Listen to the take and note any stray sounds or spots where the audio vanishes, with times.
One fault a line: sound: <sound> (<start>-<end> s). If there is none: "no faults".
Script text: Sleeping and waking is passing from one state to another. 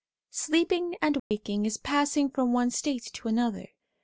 sound: dropout (1.2-1.3 s)